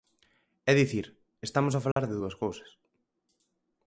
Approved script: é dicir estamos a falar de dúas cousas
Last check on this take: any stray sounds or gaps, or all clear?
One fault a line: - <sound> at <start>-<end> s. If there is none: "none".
- dropout at 1.9-2.0 s